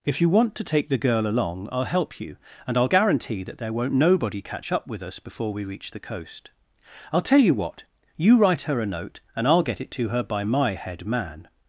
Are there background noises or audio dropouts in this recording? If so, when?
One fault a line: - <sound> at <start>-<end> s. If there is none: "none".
none